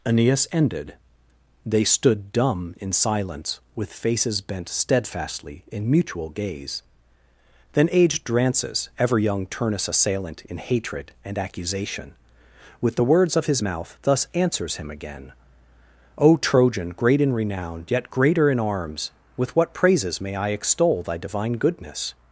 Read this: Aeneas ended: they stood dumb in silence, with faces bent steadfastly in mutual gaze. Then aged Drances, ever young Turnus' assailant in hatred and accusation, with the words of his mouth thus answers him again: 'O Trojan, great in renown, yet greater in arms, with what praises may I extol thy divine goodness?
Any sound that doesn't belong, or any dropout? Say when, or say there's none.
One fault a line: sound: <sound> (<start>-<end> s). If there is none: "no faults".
no faults